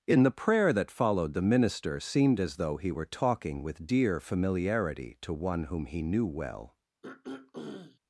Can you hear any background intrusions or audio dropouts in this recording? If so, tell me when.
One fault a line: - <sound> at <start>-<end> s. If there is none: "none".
- throat clearing at 7.0-8.0 s